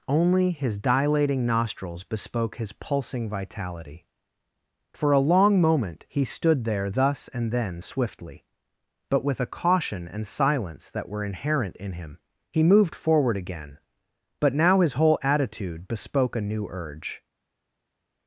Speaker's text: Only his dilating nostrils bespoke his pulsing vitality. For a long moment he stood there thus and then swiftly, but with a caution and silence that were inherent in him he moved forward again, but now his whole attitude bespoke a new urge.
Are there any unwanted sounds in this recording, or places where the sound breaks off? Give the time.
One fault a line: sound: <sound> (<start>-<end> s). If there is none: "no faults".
no faults